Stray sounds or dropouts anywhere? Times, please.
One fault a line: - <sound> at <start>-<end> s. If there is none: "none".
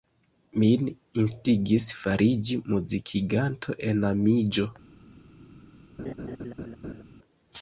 - laugh at 6.0-7.0 s